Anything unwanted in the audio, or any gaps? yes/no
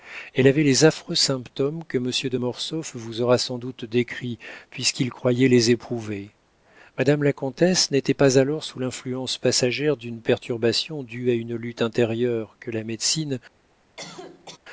yes